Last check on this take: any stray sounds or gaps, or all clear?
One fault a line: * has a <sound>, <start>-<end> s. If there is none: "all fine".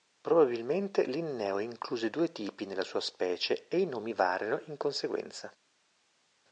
all fine